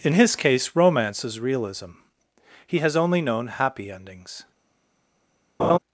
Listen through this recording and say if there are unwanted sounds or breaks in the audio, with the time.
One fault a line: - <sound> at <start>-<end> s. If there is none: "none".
- laugh at 5.6-5.8 s